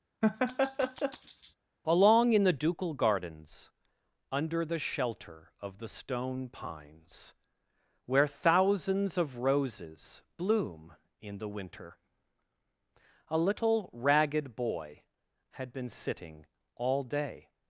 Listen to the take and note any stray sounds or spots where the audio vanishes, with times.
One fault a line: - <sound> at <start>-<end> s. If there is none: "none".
- laugh at 0.2-1.6 s